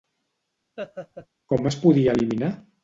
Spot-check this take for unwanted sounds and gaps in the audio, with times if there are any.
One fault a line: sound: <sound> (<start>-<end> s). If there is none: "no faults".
sound: laugh (0.8-1.3 s)